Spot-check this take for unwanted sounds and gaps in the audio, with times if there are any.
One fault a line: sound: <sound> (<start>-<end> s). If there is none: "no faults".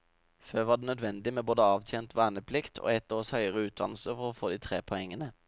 no faults